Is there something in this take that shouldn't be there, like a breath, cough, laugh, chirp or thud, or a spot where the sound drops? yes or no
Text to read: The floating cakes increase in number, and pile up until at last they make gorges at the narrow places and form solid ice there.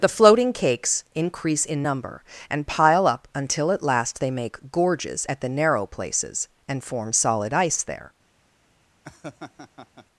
yes